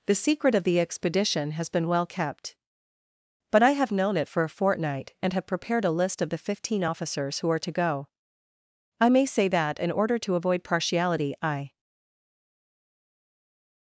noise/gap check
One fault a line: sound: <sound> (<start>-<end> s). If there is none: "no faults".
no faults